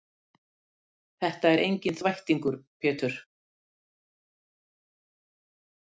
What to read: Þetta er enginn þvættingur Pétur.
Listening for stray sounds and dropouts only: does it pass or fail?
pass